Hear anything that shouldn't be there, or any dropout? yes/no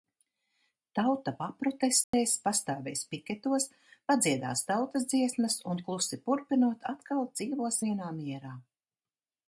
yes